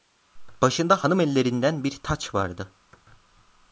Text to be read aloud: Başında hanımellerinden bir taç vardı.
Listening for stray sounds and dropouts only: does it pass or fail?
pass